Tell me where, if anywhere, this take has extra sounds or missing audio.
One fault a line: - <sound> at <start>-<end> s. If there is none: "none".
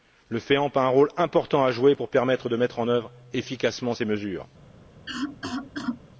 - cough at 5.1-6.0 s